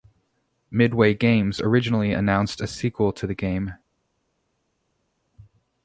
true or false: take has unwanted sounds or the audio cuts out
false